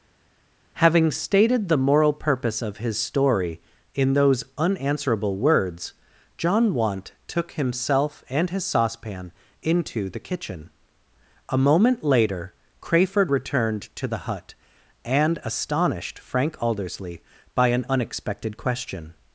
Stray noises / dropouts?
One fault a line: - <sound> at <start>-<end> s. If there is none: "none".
none